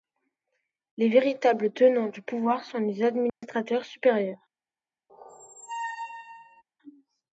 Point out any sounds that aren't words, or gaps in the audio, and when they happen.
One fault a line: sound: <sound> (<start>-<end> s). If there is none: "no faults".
sound: dropout (3.3-3.4 s)
sound: squeak (5.1-6.6 s)